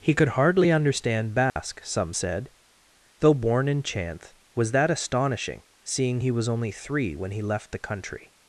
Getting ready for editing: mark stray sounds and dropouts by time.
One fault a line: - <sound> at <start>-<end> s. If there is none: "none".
- dropout at 1.5-1.6 s